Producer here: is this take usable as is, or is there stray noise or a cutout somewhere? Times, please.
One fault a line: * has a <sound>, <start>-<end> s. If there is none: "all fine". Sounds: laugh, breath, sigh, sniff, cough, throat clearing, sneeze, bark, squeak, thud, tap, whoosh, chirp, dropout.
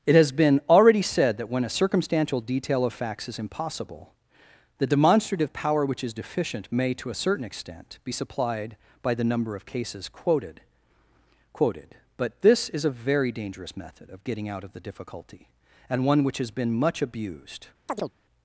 * has a chirp, 17.9-18.1 s